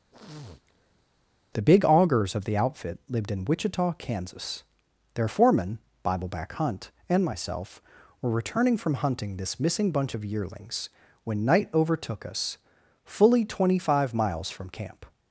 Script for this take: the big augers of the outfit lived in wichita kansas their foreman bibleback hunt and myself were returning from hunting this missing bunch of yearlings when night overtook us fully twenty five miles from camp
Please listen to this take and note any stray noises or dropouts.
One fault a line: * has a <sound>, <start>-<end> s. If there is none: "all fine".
* has a sniff, 0.1-1.1 s